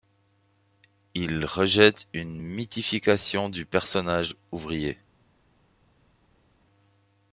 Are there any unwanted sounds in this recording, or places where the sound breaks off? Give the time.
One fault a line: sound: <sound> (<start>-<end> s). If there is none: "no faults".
no faults